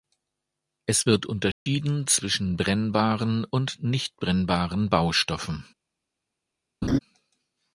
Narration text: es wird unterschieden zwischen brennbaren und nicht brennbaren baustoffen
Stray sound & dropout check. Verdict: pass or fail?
fail